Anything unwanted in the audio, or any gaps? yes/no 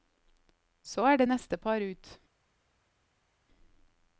no